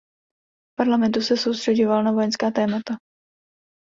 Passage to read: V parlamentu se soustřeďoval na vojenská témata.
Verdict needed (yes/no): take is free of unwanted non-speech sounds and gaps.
yes